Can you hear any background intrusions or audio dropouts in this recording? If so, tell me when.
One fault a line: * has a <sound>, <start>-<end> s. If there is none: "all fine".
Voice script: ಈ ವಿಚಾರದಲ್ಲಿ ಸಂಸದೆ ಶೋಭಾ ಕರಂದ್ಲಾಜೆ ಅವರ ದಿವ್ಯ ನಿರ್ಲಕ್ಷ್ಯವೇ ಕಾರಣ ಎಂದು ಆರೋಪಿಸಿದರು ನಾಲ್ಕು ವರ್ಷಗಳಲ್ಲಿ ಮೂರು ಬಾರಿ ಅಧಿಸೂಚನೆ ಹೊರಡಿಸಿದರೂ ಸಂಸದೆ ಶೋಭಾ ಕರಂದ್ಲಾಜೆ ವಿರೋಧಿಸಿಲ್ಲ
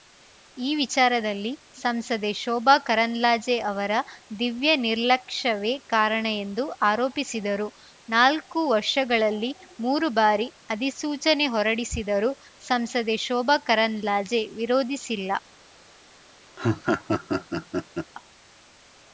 * has a laugh, 16.6-18.1 s